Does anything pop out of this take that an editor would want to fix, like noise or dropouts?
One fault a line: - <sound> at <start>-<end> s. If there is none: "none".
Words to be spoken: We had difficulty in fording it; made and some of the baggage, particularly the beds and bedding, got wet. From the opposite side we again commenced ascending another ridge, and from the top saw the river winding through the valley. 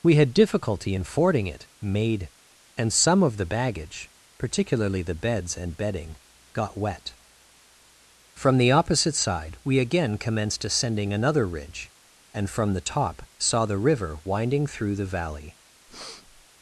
- breath at 15.9-16.5 s